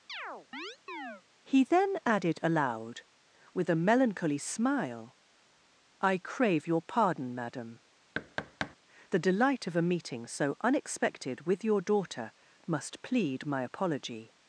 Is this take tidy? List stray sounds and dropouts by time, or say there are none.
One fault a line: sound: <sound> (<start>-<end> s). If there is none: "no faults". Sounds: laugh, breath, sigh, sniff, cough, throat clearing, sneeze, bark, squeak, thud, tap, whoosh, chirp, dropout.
sound: chirp (0.1-1.2 s)
sound: thud (8.1-8.8 s)